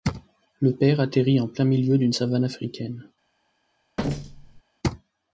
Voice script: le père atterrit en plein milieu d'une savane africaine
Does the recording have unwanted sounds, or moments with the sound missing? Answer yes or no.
yes